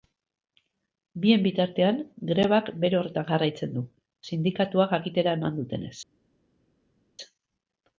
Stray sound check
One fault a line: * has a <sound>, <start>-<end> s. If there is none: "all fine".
all fine